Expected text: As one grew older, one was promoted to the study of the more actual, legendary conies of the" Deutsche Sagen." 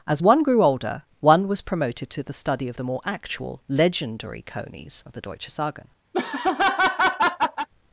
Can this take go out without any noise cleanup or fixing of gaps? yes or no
no